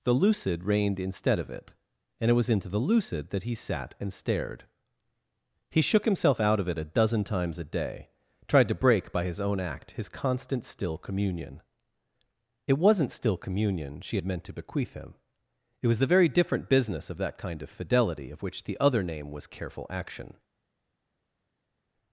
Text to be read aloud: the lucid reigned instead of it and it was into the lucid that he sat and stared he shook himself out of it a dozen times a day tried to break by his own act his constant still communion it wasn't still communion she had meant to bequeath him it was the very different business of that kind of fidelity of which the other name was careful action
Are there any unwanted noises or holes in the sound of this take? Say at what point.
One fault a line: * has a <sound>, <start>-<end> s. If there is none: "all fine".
all fine